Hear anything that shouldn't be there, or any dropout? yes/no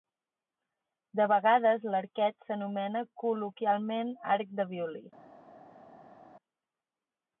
no